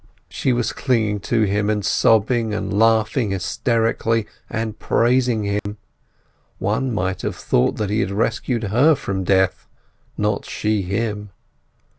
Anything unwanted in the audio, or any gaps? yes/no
yes